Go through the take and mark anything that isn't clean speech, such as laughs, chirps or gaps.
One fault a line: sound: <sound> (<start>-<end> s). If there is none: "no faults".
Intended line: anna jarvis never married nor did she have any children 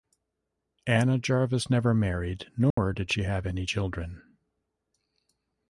sound: dropout (2.7-2.8 s)